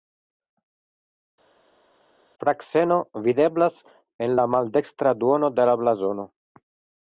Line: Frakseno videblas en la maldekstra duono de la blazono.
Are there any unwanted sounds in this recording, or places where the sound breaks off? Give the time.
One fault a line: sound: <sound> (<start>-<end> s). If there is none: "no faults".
no faults